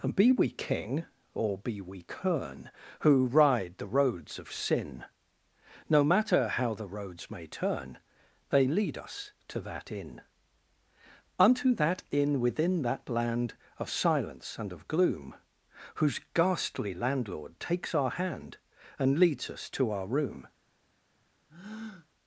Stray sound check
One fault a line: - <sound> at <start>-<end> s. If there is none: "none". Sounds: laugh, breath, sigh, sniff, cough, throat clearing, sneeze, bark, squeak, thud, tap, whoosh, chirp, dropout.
- breath at 21.5-22.1 s